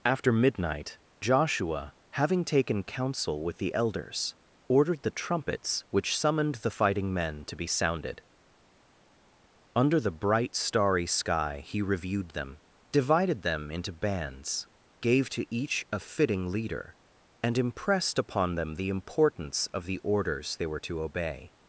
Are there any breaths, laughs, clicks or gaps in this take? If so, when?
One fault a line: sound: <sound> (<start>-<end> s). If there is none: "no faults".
no faults